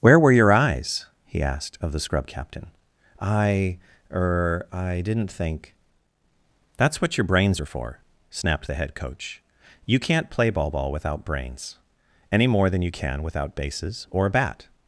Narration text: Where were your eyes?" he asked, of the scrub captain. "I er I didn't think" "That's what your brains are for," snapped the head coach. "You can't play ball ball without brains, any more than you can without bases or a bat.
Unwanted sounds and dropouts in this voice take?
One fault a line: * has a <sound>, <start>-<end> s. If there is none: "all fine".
all fine